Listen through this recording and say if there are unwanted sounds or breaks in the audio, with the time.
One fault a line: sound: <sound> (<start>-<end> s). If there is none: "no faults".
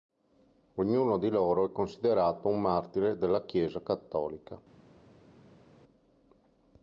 no faults